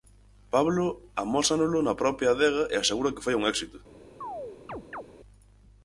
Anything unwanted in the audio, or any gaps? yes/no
yes